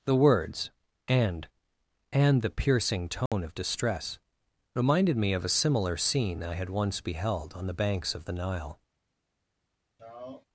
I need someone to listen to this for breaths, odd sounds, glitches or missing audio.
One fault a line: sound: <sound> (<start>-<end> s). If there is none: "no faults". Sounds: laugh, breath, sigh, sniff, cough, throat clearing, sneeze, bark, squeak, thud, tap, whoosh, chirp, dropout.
sound: dropout (3.3-3.3 s)
sound: sigh (10.0-10.5 s)